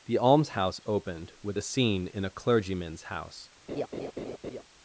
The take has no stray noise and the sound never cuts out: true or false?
false